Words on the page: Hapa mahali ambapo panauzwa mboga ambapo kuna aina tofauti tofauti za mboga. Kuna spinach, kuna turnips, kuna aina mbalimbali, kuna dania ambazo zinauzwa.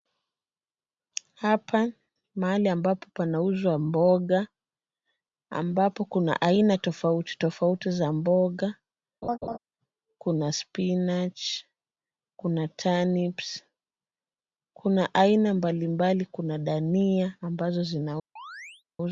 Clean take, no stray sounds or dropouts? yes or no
no